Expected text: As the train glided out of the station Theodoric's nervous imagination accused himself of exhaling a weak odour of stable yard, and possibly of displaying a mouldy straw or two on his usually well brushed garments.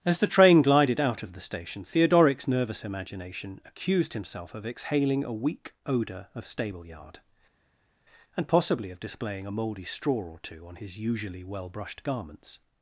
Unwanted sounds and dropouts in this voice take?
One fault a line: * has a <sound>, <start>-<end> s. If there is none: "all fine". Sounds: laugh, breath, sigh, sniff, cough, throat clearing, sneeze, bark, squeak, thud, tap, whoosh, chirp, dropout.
all fine